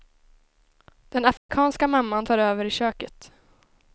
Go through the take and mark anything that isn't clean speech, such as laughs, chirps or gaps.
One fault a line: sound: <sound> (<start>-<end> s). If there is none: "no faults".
sound: dropout (1.4-1.5 s)